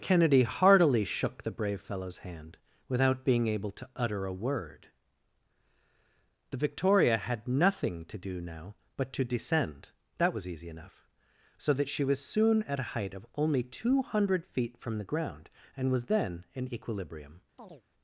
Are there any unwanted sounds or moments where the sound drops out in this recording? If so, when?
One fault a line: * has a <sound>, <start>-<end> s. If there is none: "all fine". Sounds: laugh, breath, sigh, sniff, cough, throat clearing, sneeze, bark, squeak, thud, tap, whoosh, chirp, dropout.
* has a chirp, 17.6-17.8 s